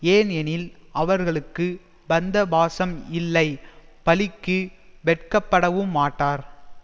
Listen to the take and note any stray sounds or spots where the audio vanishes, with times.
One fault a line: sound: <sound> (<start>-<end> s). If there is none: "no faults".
no faults